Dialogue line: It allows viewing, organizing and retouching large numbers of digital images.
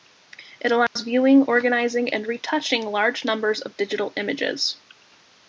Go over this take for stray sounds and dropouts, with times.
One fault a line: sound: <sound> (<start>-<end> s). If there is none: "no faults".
sound: dropout (0.9-1.0 s)